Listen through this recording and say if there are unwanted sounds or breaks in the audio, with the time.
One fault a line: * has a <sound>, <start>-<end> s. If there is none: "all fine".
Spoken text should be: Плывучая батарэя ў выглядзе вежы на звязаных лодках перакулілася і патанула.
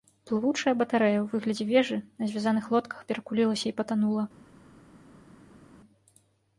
all fine